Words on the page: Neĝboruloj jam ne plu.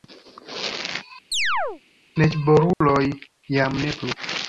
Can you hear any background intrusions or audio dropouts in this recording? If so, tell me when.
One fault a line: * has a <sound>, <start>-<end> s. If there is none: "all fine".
* has a chirp, 1.3-1.8 s
* has a dropout, 2.7-2.8 s